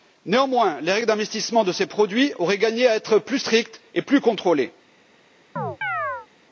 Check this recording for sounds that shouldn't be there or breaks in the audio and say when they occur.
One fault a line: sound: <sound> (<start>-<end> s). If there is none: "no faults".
sound: chirp (5.6-6.3 s)